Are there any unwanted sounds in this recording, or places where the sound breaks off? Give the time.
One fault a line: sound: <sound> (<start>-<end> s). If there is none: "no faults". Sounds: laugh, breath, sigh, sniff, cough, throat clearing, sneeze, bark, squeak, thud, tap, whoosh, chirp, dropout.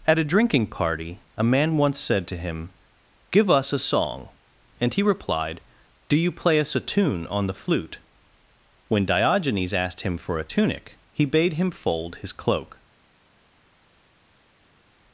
no faults